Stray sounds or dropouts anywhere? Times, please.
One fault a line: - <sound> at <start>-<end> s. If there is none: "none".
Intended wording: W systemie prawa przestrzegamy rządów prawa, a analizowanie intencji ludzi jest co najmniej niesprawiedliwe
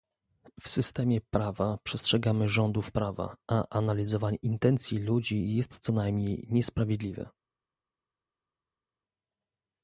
none